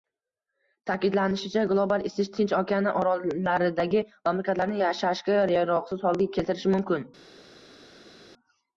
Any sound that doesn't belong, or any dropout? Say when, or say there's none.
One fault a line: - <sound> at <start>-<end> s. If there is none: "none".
none